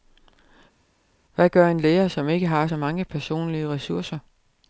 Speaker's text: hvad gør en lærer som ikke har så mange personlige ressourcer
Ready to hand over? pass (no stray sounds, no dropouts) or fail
pass